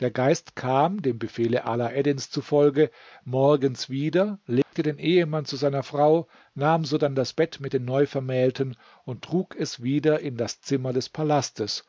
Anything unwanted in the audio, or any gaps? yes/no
yes